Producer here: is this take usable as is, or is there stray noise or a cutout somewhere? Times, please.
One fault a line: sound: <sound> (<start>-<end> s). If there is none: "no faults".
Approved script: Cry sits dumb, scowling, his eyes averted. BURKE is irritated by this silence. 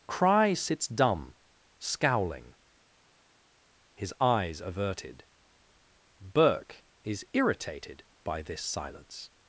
no faults